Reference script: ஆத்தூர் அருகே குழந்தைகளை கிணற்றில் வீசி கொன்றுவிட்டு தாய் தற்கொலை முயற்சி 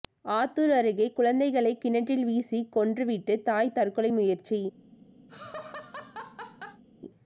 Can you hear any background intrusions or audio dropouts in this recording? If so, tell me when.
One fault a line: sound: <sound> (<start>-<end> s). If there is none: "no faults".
sound: laugh (5.3-6.8 s)